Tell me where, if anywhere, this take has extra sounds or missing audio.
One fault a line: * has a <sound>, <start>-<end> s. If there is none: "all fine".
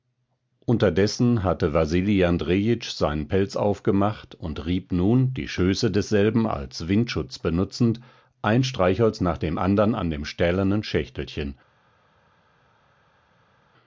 all fine